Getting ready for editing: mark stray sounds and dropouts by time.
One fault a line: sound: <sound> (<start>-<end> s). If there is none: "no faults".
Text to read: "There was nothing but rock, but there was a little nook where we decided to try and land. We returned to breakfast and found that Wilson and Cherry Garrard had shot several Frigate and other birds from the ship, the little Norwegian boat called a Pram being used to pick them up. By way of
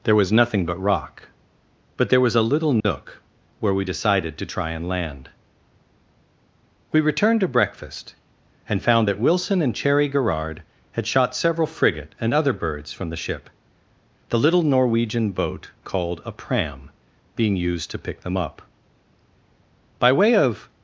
sound: dropout (2.8-2.8 s)